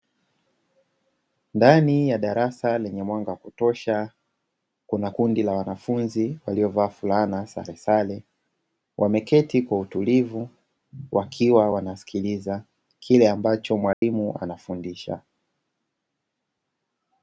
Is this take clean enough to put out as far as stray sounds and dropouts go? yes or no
no